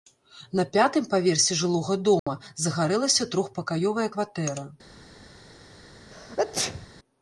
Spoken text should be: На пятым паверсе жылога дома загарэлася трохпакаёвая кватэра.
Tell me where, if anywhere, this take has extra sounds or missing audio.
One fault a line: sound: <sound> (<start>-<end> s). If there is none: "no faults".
sound: dropout (2.2-2.3 s)
sound: sneeze (6.1-6.9 s)